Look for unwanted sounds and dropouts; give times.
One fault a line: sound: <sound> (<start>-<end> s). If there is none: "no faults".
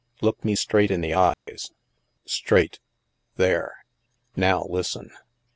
sound: dropout (1.3-1.5 s)